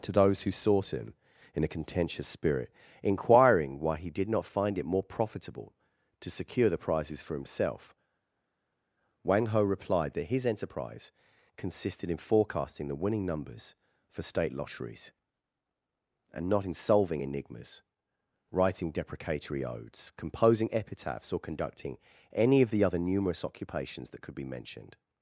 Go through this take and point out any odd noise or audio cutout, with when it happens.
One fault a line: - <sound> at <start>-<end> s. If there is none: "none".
none